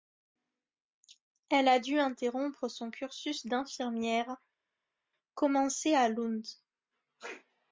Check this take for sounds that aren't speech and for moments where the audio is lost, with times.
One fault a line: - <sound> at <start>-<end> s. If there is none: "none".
none